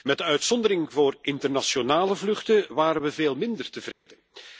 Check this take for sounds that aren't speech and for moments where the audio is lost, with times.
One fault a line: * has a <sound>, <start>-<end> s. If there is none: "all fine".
* has a dropout, 3.9-4.1 s